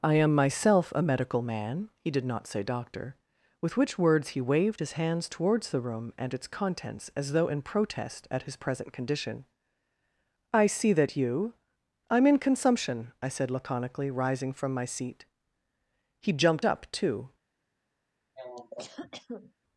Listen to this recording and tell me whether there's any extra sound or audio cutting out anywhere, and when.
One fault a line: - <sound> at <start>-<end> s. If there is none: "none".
- cough at 18.4-19.5 s